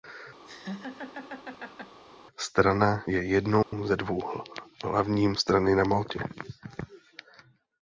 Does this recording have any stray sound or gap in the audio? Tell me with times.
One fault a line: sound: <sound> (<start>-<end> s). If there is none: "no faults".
sound: laugh (0.4-2.0 s)
sound: dropout (3.6-3.7 s)